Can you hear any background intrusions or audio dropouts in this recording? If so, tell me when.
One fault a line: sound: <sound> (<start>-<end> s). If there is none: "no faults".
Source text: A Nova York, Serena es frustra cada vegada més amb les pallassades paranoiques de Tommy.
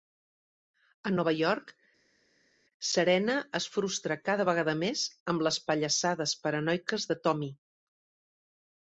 no faults